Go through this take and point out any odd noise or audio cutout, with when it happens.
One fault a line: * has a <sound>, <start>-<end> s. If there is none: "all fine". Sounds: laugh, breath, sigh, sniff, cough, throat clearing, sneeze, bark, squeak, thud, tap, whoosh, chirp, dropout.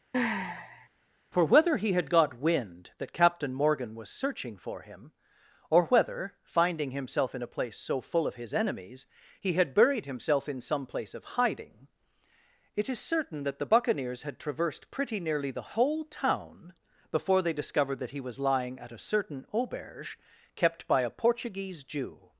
* has a sigh, 0.1-0.9 s